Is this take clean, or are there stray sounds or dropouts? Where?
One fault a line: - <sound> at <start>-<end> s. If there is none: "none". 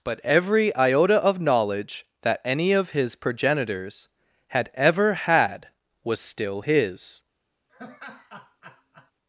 - laugh at 7.7-9.1 s